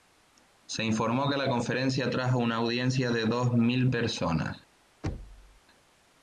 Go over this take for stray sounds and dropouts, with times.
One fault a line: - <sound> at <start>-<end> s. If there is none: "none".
- thud at 5.0-5.6 s